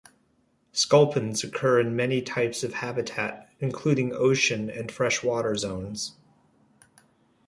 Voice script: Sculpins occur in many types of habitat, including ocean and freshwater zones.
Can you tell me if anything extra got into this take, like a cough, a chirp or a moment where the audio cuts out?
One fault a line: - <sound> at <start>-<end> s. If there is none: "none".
none